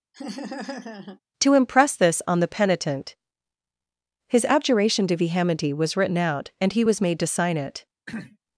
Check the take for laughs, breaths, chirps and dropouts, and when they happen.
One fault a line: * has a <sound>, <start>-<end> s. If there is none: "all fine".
* has a laugh, 0.1-1.2 s
* has a throat clearing, 8.1-8.4 s